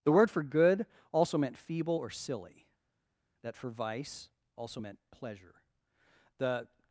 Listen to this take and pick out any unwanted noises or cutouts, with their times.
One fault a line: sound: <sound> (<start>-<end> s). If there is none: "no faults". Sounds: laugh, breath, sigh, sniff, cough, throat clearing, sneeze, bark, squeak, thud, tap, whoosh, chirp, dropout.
no faults